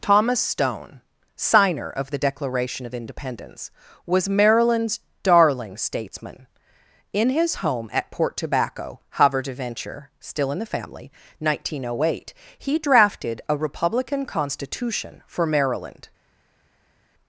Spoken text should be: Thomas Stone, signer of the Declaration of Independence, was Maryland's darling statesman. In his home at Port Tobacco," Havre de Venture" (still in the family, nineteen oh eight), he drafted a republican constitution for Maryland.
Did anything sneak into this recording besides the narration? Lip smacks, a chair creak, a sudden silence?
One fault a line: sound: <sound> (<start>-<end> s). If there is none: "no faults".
no faults